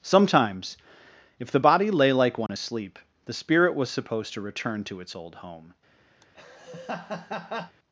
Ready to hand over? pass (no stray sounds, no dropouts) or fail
fail